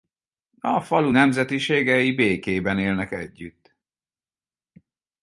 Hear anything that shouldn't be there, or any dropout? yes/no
no